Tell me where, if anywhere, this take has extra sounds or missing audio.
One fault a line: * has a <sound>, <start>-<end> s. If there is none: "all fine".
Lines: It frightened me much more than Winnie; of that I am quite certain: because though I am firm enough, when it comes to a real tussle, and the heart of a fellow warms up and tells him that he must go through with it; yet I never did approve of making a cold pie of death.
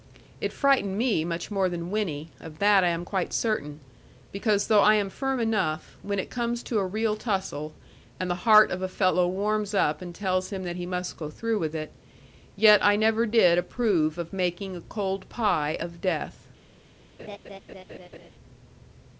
* has a laugh, 17.2-18.3 s